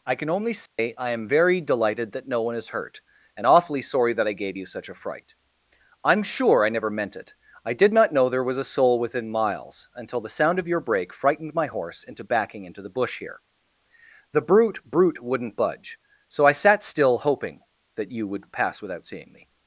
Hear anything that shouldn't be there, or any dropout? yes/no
yes